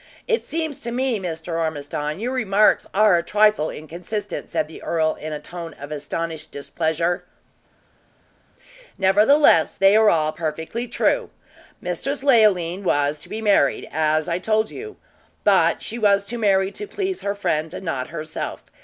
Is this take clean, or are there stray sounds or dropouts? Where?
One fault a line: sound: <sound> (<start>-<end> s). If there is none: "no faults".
no faults